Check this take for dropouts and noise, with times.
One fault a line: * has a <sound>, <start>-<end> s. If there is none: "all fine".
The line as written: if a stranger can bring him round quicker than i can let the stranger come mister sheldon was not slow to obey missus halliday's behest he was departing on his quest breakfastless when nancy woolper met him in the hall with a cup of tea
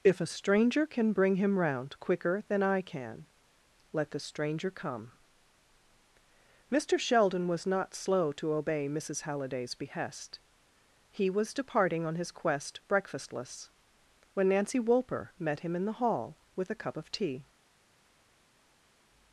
all fine